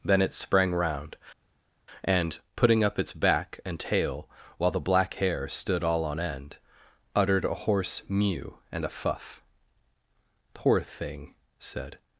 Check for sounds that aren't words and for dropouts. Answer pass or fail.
pass